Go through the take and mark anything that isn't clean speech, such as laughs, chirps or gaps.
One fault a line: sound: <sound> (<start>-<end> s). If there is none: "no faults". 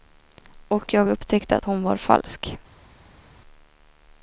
no faults